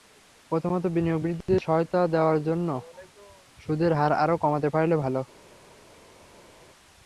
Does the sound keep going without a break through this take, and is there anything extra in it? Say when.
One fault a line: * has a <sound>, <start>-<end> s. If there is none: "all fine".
all fine